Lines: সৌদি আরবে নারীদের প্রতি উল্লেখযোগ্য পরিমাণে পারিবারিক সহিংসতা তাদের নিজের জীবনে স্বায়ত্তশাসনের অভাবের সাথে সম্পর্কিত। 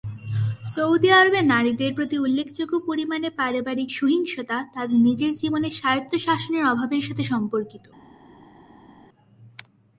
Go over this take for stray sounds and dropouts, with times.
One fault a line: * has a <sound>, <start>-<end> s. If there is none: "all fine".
all fine